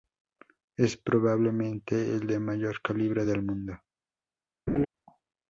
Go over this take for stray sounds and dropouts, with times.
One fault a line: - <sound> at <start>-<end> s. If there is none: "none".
- laugh at 4.7-4.9 s